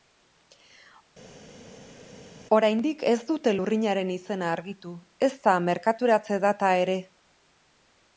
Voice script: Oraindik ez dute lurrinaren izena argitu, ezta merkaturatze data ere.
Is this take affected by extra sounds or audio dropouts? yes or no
no